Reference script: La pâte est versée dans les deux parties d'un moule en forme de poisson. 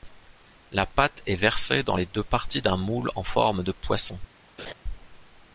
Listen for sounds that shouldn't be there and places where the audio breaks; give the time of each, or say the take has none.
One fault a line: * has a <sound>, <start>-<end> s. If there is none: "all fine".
* has a laugh, 4.6-4.7 s